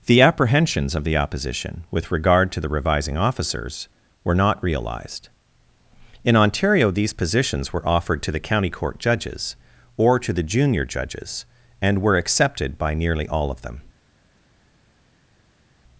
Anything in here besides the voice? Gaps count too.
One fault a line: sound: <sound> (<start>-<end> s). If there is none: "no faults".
no faults